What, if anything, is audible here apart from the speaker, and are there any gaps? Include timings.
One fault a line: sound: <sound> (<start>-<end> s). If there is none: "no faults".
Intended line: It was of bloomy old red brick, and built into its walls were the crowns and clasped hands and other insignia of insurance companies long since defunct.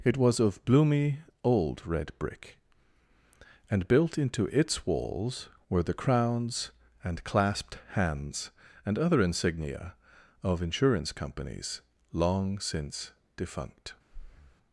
sound: breath (14.1-14.6 s)